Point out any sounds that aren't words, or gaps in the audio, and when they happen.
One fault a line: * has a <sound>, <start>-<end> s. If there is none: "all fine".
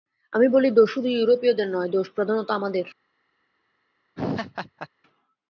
* has a laugh, 4.2-4.9 s